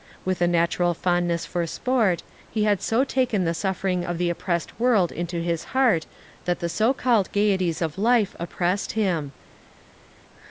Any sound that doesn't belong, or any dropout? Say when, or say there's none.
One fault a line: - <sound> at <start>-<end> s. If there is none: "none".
none